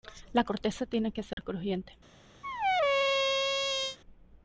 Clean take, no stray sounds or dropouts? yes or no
no